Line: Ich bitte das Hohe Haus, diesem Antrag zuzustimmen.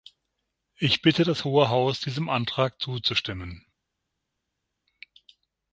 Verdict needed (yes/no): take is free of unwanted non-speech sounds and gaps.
yes